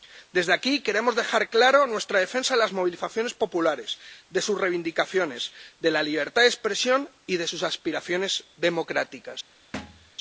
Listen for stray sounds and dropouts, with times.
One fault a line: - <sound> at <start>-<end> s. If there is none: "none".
- thud at 9.7-10.1 s